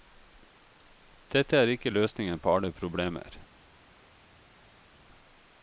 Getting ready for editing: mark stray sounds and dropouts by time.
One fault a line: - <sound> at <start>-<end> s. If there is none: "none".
none